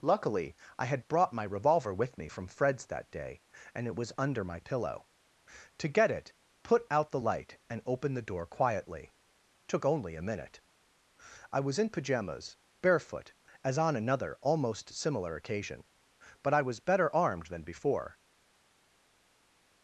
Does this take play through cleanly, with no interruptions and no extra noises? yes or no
yes